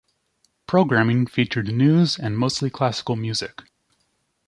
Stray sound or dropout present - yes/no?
no